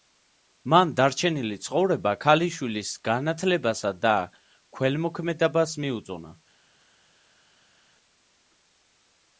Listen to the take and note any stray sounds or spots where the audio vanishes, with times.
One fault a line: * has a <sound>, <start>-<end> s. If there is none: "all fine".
all fine